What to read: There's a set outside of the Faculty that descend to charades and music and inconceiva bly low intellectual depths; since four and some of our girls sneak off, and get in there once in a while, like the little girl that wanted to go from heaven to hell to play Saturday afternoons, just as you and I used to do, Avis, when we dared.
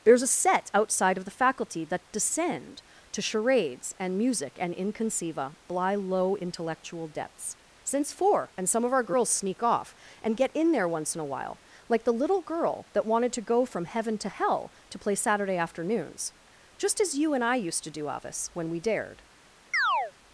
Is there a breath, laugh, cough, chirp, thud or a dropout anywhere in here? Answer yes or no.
yes